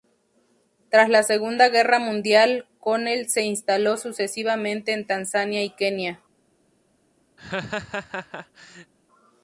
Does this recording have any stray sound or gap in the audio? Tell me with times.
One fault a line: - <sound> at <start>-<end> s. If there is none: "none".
- laugh at 7.4-8.9 s